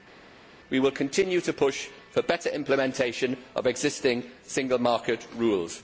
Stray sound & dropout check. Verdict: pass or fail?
pass